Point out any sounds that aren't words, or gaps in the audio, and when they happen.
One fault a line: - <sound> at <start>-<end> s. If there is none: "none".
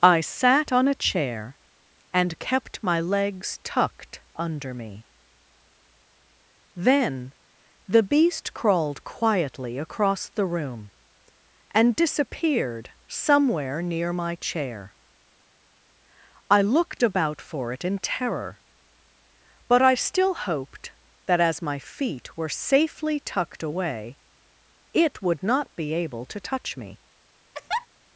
- laugh at 27.5-27.9 s